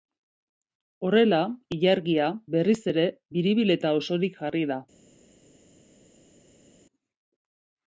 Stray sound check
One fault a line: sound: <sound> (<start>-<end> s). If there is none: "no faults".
no faults